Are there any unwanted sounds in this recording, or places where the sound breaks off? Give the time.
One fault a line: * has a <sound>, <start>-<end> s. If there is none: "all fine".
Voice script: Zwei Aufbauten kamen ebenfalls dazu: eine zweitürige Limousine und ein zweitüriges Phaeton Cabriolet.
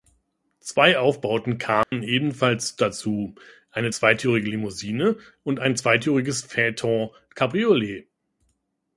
* has a dropout, 1.8-1.9 s